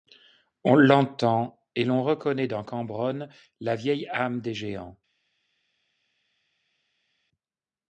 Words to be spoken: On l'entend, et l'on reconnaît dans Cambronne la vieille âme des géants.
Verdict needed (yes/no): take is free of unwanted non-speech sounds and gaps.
yes